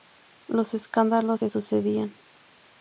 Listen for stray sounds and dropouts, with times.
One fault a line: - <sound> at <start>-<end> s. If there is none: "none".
none